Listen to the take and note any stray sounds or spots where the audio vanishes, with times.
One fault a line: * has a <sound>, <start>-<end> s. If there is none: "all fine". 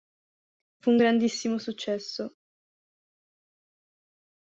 all fine